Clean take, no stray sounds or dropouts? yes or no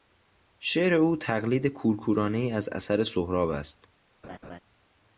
no